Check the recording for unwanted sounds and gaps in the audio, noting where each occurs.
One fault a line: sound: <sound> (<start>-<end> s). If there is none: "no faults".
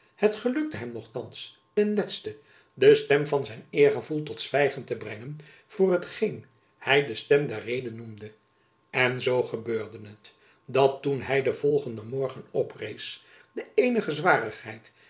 no faults